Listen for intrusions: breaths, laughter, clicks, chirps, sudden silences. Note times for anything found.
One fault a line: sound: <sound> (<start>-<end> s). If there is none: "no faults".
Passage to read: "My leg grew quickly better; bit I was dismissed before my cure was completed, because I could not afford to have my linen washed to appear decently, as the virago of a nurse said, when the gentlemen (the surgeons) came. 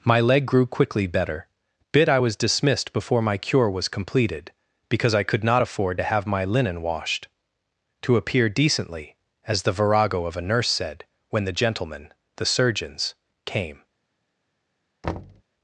sound: thud (15.0-15.4 s)